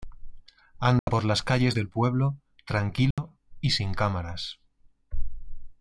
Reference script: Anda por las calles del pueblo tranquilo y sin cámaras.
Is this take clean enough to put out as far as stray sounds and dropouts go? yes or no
no